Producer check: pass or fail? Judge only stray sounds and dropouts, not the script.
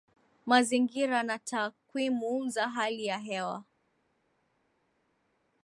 pass